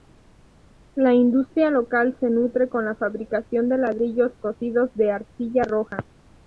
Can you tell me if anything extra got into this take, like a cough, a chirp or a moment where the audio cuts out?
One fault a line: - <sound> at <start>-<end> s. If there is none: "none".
none